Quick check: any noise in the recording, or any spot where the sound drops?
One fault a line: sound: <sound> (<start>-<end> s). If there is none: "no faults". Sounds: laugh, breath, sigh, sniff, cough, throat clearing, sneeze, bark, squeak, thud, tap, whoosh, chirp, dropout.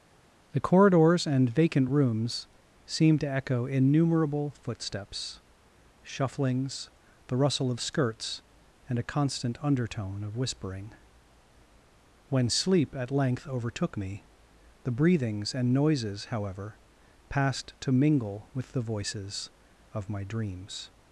no faults